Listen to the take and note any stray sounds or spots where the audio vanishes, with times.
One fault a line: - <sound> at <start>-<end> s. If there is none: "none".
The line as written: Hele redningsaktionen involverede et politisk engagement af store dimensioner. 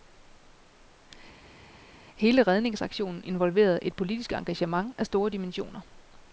none